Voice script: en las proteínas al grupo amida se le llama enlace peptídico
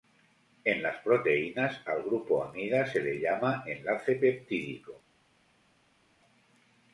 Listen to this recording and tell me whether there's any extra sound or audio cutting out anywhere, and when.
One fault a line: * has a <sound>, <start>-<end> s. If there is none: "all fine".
all fine